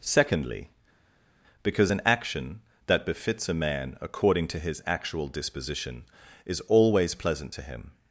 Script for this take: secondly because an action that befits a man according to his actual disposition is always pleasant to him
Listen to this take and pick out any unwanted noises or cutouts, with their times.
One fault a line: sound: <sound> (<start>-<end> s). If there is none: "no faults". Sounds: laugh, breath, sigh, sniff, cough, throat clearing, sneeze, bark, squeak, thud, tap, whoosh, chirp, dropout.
no faults